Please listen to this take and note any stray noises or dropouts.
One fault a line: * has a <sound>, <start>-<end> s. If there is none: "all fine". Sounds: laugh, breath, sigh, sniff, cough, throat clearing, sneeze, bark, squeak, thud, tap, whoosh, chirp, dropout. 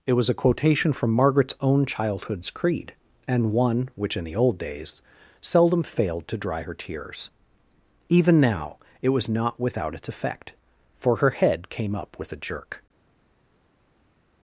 all fine